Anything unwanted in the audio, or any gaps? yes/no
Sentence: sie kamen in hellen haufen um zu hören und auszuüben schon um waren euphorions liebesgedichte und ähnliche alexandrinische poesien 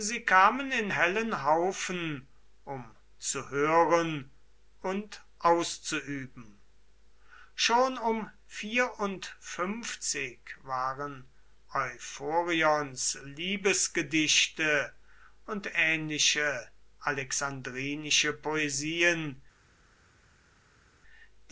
no